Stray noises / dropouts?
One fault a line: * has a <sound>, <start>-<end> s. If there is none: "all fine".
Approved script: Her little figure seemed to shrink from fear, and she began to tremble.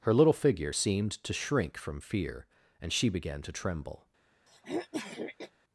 * has a throat clearing, 4.5-5.5 s